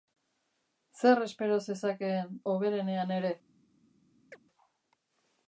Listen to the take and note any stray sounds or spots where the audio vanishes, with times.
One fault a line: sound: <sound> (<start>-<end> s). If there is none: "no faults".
sound: chirp (4.3-4.4 s)